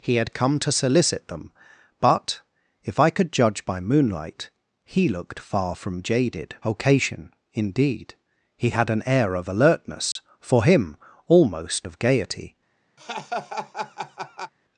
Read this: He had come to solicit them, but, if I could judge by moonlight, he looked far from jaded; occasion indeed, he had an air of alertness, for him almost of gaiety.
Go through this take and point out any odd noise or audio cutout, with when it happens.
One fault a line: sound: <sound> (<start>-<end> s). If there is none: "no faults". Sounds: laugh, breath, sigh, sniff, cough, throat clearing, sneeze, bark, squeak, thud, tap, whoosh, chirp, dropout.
sound: dropout (10.1-10.2 s)
sound: laugh (13.0-14.5 s)